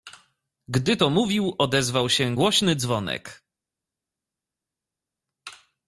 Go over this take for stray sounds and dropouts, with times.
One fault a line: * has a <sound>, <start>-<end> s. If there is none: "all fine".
all fine